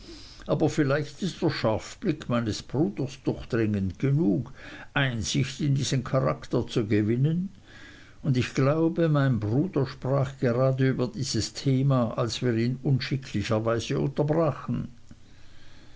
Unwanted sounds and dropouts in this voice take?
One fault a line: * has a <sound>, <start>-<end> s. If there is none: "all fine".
all fine